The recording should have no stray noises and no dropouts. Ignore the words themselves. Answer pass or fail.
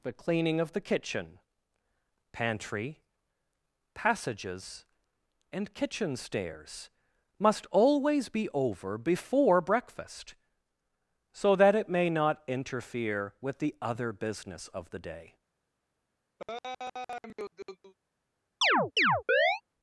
fail